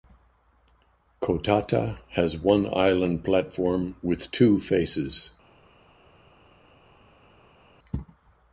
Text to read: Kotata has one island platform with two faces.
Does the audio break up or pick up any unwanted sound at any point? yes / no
no